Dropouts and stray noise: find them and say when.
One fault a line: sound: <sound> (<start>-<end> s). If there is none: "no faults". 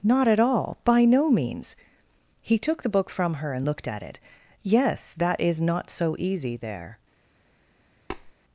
sound: tap (8.1-8.3 s)